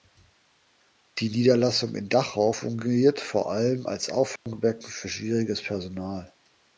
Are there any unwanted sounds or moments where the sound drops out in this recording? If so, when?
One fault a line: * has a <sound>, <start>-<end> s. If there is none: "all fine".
* has a dropout, 4.4-4.5 s